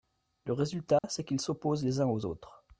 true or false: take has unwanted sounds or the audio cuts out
true